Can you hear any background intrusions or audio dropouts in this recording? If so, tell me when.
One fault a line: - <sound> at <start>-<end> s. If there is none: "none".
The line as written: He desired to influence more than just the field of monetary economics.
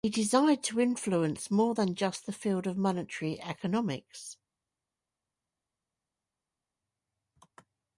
none